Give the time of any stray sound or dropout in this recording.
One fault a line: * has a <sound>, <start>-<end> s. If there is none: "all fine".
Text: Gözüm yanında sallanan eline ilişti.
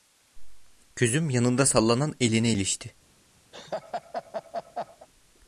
* has a laugh, 3.5-5.1 s